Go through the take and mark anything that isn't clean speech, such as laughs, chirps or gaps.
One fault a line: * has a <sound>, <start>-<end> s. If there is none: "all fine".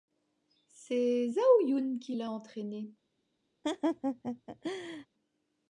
* has a laugh, 3.6-5.1 s